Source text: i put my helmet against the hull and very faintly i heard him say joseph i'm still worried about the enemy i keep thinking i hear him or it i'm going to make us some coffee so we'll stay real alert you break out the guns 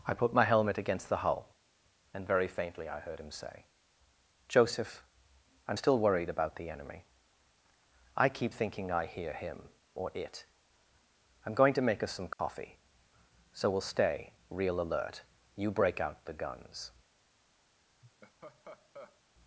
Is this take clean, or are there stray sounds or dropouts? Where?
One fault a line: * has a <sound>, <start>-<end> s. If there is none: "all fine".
* has a dropout, 12.3-12.4 s
* has a laugh, 18.0-19.2 s